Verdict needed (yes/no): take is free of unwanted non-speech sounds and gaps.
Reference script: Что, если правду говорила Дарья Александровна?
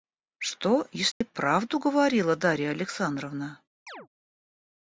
no